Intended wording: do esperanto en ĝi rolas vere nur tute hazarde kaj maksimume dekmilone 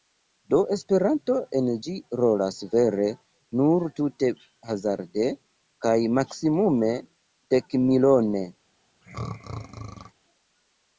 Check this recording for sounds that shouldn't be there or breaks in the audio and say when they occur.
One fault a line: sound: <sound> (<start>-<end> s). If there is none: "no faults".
sound: throat clearing (9.0-10.1 s)